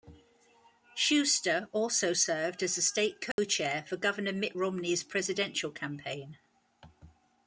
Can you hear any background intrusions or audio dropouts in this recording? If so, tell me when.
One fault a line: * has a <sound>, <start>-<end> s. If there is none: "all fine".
* has a dropout, 3.3-3.4 s